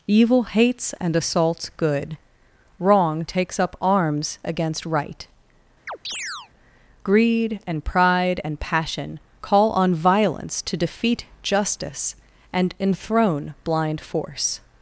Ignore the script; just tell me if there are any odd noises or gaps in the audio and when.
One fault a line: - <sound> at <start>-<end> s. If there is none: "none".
- chirp at 5.9-6.5 s